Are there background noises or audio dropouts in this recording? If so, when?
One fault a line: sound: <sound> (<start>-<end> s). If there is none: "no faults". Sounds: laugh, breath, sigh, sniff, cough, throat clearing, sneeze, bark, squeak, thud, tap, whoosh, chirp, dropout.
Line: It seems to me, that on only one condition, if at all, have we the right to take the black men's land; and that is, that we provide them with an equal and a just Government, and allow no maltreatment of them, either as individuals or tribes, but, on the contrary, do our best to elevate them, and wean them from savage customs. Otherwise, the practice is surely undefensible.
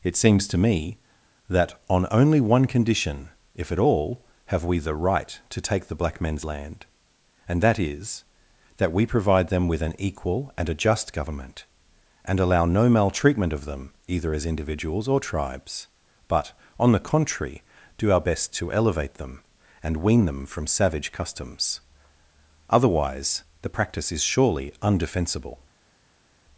no faults